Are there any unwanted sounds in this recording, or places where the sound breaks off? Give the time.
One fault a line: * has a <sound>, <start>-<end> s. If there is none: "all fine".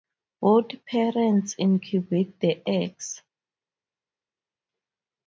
all fine